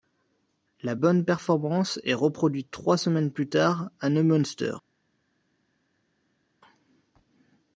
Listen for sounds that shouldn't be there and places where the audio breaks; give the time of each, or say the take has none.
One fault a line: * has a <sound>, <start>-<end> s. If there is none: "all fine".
all fine